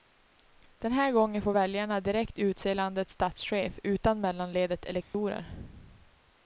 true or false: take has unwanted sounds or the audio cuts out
true